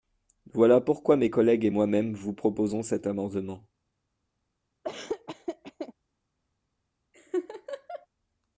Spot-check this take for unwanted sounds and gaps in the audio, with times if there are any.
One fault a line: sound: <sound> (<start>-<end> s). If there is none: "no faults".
sound: laugh (4.8-5.9 s)
sound: laugh (7.1-8.1 s)